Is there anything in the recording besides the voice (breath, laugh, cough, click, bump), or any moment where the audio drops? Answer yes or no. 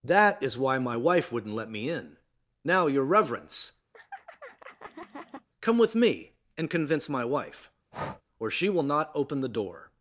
yes